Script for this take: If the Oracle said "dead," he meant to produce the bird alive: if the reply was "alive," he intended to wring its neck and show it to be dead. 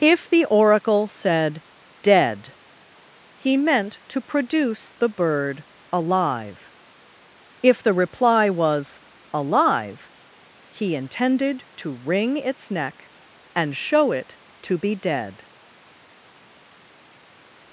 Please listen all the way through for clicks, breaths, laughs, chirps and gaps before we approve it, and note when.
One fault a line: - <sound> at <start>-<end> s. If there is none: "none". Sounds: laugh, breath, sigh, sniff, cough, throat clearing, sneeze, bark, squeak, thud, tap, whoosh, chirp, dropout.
none